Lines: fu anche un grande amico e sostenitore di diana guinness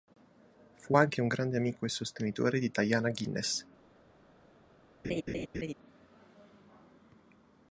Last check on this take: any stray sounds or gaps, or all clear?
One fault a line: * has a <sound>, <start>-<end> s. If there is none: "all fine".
* has a laugh, 5.0-5.7 s